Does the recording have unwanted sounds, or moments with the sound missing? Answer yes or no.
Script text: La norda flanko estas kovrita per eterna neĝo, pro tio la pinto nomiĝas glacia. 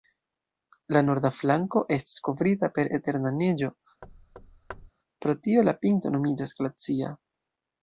yes